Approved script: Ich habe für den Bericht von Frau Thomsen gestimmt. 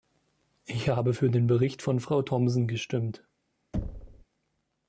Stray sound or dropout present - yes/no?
yes